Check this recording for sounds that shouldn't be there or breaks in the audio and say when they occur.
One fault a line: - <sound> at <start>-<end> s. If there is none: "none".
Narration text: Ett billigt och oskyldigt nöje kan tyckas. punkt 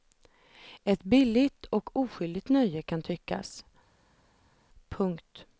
none